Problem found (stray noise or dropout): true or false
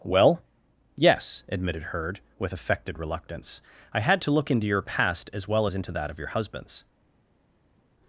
false